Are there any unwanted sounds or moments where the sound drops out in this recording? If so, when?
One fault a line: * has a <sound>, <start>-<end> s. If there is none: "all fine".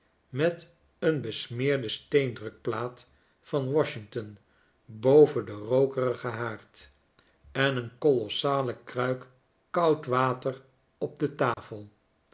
* has a dropout, 11.5-11.6 s